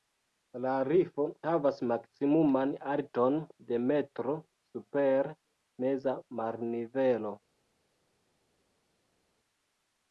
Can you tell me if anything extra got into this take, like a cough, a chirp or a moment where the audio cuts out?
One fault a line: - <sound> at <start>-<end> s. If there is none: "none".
none